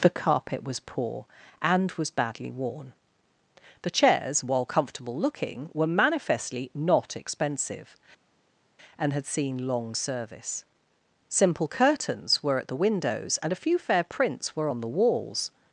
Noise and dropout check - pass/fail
pass